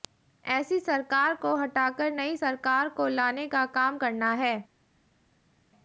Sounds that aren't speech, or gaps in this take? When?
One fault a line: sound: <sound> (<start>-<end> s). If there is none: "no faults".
no faults